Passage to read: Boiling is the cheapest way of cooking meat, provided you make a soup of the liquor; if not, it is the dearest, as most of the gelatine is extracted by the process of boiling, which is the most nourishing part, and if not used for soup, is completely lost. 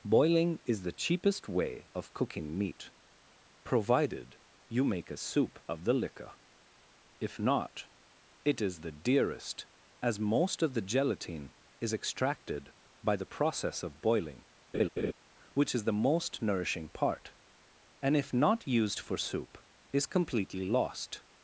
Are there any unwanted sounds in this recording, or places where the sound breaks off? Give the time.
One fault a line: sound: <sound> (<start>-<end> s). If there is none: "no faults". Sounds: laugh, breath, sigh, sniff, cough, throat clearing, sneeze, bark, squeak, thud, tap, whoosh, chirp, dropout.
sound: laugh (14.7-15.1 s)